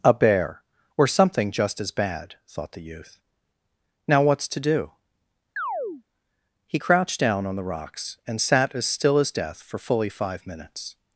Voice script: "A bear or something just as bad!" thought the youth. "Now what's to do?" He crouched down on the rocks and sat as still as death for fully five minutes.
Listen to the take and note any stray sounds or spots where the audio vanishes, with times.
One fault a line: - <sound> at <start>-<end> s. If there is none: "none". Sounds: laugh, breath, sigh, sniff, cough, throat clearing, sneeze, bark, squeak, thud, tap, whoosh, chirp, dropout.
- chirp at 5.6-6.0 s